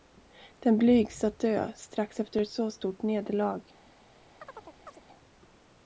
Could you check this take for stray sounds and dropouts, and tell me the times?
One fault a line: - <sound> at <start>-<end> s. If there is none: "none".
- chirp at 4.4-5.0 s